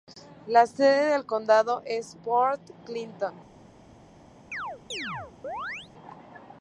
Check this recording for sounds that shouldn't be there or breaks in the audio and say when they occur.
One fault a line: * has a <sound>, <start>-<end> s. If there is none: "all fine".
* has a chirp, 4.5-5.9 s